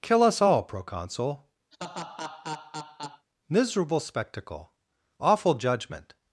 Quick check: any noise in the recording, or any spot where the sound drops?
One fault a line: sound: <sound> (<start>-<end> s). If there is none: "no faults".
sound: laugh (1.7-3.3 s)